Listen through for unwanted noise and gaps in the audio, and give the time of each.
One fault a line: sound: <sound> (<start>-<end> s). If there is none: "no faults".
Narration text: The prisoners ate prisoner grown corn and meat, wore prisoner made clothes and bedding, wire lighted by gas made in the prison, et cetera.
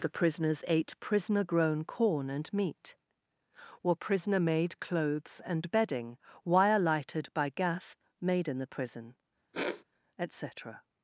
sound: sniff (9.5-9.8 s)